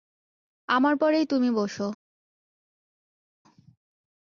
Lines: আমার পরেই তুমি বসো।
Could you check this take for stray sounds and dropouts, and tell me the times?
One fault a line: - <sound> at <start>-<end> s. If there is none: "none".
none